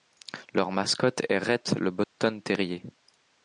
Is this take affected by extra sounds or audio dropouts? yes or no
yes